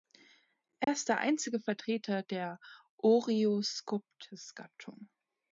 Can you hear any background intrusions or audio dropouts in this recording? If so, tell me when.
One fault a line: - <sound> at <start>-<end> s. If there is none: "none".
- dropout at 0.8-0.9 s